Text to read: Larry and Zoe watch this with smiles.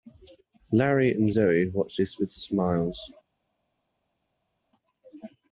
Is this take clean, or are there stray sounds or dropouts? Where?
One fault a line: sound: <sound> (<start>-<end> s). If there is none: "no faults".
no faults